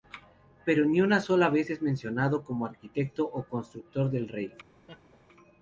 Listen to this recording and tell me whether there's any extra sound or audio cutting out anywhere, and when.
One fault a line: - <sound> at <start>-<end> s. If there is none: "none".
- laugh at 4.9-5.2 s